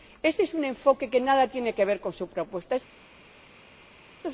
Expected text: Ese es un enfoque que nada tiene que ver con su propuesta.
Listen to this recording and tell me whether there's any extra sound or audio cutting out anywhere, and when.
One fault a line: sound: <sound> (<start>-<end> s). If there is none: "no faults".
no faults